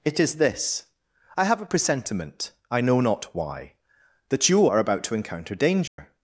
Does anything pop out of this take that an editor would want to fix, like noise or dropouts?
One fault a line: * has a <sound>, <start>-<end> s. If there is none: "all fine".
* has a dropout, 5.9-6.0 s